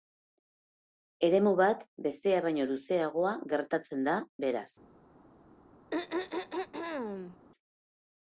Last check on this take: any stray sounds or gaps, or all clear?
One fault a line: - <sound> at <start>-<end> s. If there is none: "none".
- throat clearing at 5.9-7.4 s